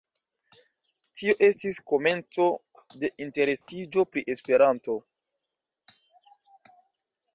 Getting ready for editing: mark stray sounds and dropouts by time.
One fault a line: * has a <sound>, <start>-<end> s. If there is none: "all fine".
* has a dropout, 3.6-3.7 s